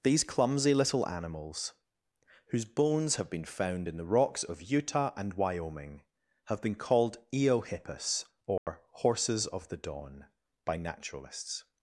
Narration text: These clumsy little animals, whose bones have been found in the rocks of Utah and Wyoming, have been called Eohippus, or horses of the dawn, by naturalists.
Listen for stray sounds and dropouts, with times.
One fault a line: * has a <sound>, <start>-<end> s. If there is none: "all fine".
* has a dropout, 8.6-8.7 s